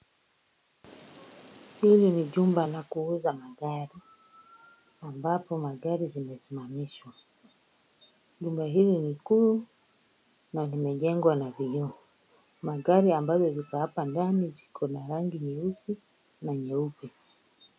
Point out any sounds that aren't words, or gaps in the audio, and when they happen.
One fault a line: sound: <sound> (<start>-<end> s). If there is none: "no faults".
no faults